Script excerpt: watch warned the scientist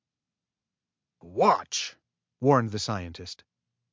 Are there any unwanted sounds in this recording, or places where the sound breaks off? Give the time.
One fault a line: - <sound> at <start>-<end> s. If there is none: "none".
none